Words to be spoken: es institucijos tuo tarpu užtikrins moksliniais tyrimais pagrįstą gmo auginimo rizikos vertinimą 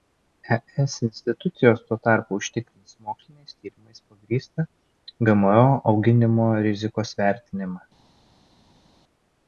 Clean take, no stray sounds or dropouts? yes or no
yes